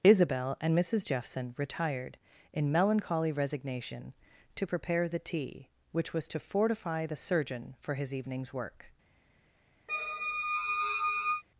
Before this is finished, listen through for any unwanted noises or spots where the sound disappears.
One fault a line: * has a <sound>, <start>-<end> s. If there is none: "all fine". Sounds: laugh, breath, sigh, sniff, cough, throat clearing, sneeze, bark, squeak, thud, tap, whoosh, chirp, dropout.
* has a squeak, 9.9-11.4 s